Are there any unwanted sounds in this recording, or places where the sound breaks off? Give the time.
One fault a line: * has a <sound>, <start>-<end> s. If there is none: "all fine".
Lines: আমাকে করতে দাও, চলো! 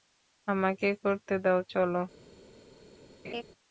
* has a laugh, 3.2-3.4 s